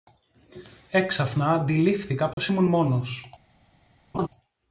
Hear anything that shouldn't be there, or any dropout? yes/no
yes